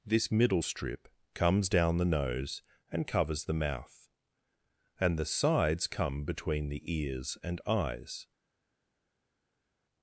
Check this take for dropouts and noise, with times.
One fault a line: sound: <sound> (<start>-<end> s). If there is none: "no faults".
no faults